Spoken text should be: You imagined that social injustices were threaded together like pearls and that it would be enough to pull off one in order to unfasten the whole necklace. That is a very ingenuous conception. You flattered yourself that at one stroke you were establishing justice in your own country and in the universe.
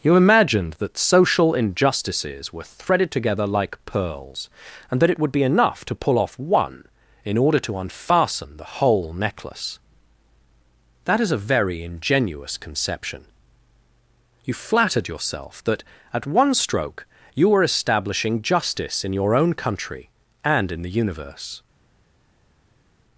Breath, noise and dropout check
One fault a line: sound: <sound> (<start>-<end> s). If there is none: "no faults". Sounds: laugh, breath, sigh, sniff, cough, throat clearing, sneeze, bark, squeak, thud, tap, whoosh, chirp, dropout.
no faults